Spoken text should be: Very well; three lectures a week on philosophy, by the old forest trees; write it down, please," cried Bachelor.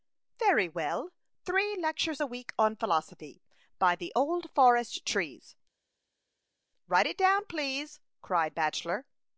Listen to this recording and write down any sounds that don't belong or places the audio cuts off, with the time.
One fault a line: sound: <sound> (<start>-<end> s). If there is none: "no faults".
no faults